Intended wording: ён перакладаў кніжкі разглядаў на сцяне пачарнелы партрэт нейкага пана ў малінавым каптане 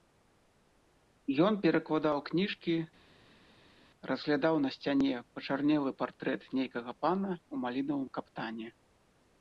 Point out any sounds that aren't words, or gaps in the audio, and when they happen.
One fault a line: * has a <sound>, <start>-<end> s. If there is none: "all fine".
all fine